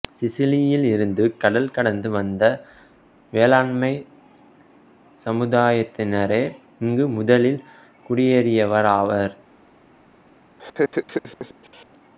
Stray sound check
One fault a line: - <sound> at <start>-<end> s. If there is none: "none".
- laugh at 10.6-11.9 s